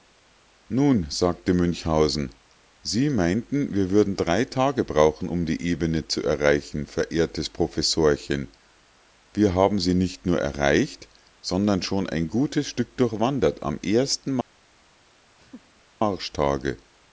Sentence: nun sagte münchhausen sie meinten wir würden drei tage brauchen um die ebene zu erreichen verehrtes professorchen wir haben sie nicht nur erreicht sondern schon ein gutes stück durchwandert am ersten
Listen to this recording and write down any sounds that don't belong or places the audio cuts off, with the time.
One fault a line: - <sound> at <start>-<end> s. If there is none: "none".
- laugh at 15.4-15.8 s